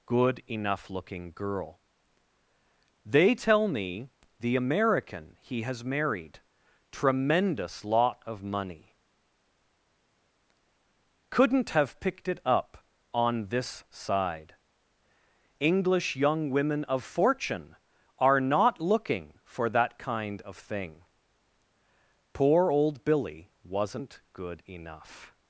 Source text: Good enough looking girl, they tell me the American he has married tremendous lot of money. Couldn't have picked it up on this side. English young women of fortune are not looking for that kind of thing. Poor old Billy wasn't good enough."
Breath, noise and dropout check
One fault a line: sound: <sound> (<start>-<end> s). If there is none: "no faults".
no faults